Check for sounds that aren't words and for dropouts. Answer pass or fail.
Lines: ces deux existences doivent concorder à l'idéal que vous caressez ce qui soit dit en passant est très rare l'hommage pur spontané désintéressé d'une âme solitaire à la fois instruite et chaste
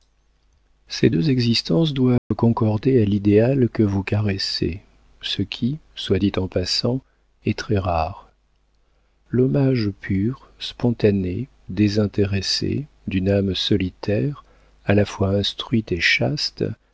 fail